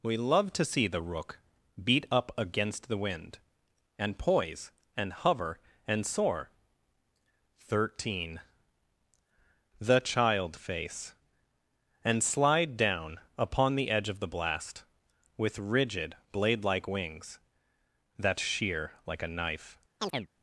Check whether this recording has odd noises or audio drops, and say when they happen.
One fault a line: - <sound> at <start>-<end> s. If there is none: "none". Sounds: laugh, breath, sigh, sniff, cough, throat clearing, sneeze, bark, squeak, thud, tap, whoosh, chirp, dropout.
- chirp at 20.0-20.3 s